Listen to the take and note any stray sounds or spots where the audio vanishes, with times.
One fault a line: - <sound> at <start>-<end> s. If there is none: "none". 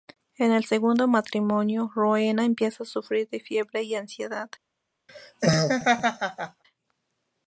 - laugh at 5.1-6.6 s